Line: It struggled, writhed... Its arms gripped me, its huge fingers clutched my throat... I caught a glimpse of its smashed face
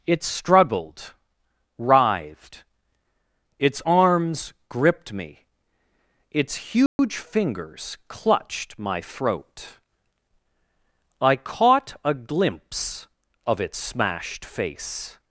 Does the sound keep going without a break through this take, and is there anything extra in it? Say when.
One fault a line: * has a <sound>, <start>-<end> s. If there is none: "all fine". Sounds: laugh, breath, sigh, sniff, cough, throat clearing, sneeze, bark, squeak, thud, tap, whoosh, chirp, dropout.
* has a dropout, 6.9-7.0 s